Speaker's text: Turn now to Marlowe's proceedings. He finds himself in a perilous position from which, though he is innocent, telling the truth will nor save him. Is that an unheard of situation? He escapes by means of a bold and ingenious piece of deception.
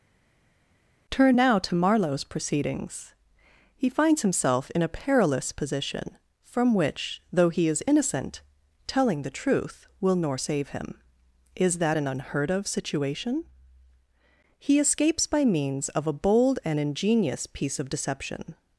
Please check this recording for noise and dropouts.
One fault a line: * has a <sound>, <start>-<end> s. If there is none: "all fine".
all fine